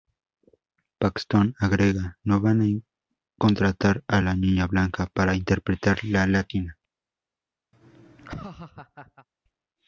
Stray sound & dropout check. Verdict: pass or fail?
fail